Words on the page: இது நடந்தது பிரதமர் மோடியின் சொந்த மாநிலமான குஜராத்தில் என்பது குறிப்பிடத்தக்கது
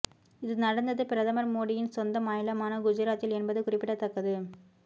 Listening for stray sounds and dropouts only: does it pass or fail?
pass